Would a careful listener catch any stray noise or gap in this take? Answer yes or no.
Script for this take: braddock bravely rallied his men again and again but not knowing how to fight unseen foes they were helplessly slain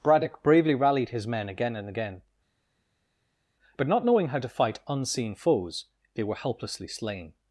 no